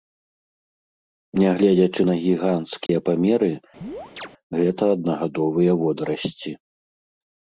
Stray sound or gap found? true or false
true